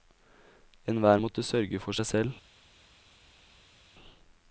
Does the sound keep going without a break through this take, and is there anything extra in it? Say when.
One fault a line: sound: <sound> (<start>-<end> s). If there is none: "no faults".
no faults